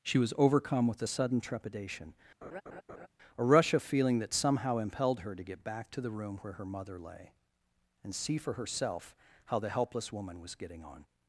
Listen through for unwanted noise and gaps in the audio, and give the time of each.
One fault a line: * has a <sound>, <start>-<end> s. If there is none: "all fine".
* has a laugh, 2.4-3.1 s